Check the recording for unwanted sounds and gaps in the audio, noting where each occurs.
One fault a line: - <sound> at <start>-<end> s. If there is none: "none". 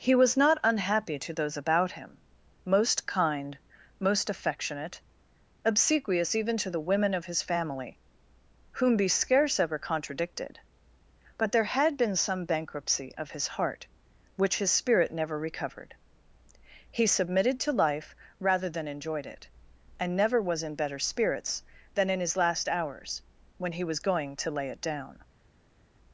none